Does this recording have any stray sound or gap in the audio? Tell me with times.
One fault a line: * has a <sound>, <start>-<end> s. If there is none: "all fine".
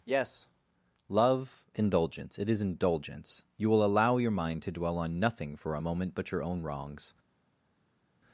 all fine